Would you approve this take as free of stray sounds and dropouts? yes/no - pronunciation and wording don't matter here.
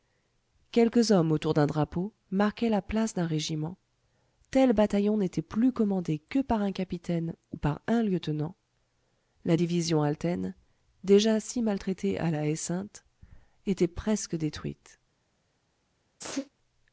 no